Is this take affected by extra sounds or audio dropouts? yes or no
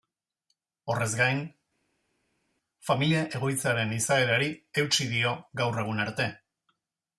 no